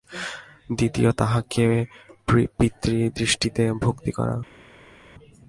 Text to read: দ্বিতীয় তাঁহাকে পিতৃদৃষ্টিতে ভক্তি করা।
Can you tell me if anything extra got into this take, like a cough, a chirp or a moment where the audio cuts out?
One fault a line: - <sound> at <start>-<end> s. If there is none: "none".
none